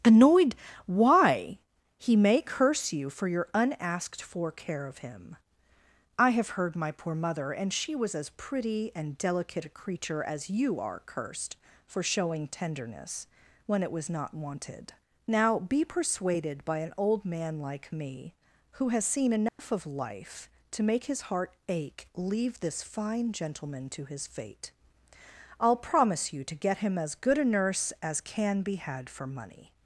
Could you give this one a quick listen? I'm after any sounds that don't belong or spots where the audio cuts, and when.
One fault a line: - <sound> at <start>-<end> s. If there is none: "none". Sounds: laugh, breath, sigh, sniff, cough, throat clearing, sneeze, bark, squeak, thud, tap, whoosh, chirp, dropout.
- dropout at 19.5-19.6 s